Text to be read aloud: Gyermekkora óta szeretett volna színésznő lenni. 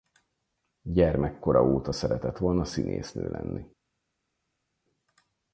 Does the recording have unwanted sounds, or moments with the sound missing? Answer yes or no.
no